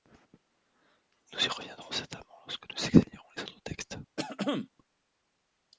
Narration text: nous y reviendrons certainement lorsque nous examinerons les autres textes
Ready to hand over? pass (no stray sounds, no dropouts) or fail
fail